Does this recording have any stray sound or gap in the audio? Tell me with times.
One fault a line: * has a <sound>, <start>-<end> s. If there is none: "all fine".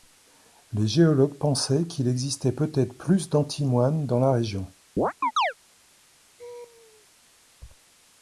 * has a chirp, 5.0-5.5 s
* has a laugh, 6.4-7.1 s